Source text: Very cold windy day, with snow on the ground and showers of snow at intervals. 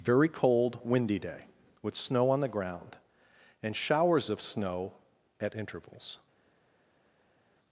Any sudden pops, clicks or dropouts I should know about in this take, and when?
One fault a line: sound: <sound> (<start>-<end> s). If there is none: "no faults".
no faults